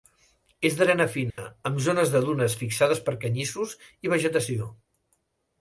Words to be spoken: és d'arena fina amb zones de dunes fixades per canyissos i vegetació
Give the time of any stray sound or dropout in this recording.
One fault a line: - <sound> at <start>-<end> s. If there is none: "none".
- dropout at 1.3-1.4 s